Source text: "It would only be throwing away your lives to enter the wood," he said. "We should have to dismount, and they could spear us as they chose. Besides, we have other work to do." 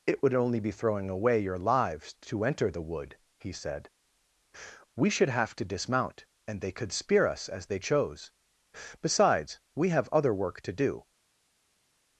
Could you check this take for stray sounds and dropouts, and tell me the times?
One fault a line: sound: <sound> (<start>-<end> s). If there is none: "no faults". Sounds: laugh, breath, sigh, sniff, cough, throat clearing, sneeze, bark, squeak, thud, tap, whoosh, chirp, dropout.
no faults